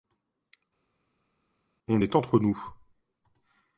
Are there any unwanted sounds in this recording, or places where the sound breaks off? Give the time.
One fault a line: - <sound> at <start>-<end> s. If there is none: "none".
none